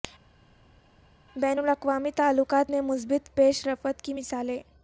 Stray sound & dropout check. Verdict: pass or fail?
pass